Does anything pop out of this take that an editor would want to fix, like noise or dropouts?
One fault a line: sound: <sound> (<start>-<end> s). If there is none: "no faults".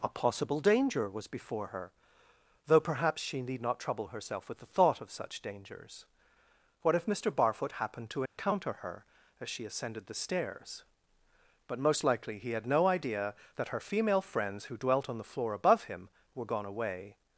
sound: dropout (8.3-8.4 s)